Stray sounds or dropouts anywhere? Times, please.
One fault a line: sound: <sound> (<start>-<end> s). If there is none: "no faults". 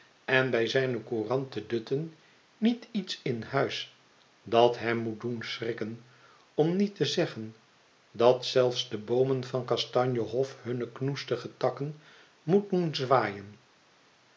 no faults